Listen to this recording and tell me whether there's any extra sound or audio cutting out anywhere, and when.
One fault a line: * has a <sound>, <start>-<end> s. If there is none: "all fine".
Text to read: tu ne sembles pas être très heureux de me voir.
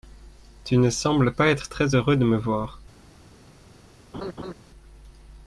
* has a laugh, 4.1-4.5 s